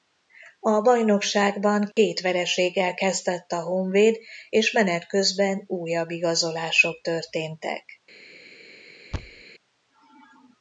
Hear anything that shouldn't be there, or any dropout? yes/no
yes